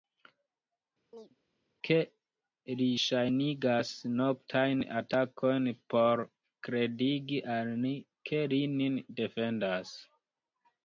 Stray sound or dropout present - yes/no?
yes